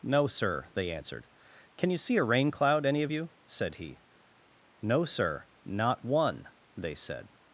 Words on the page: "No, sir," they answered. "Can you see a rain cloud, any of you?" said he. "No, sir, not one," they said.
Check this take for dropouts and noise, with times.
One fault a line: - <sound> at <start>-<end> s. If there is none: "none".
none